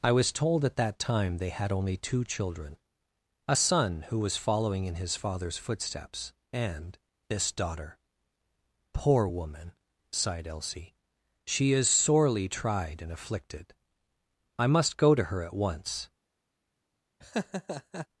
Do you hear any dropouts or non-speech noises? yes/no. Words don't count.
yes